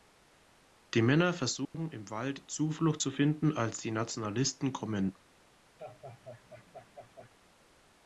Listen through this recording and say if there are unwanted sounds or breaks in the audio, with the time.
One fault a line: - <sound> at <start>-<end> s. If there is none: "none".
- dropout at 1.6-1.7 s
- laugh at 5.8-7.3 s